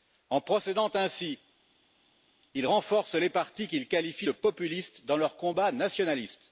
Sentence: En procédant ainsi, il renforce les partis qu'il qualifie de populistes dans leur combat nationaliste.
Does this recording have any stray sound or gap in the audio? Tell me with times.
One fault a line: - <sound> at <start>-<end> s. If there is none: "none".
none